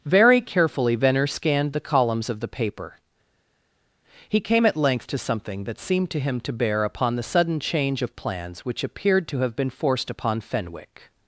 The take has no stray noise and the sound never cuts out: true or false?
true